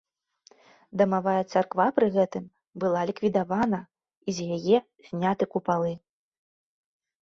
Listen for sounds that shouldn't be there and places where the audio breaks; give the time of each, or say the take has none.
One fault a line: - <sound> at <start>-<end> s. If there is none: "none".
none